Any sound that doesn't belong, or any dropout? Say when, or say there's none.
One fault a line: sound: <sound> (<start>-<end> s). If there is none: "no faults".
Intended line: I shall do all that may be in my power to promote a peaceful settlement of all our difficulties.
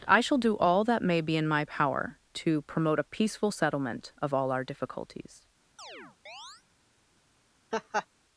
sound: chirp (5.8-6.6 s)
sound: laugh (7.7-8.1 s)